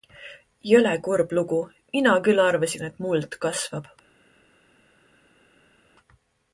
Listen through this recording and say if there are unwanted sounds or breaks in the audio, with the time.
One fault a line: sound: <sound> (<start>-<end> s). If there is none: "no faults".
no faults